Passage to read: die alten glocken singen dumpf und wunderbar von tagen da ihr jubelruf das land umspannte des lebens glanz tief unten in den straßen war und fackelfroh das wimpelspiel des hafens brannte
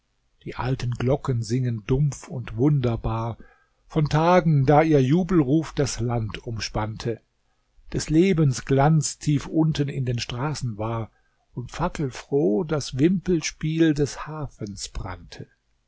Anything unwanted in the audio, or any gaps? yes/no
no